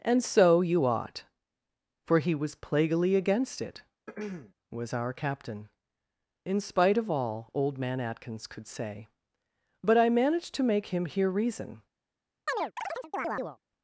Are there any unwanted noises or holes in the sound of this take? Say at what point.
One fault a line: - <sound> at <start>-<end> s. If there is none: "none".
- throat clearing at 4.1-4.5 s
- chirp at 12.5-13.6 s